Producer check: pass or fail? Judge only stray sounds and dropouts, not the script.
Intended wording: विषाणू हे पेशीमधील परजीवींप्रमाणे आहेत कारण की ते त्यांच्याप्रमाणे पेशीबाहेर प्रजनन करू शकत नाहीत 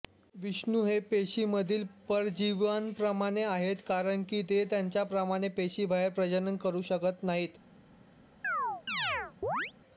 fail